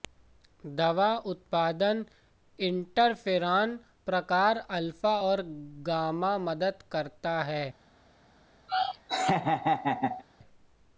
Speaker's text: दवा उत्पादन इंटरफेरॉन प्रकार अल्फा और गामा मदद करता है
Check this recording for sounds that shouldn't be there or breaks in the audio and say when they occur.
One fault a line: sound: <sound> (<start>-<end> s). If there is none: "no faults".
sound: laugh (8.7-10.2 s)